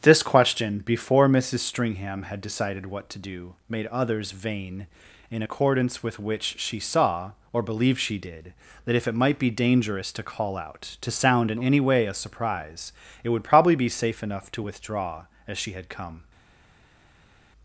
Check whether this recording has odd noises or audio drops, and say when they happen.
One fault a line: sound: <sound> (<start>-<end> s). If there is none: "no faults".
no faults